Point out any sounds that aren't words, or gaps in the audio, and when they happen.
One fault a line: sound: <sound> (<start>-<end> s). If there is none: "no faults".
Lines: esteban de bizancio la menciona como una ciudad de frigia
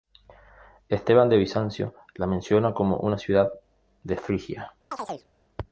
sound: chirp (4.9-5.3 s)